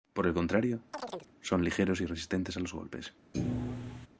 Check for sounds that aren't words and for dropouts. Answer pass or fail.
fail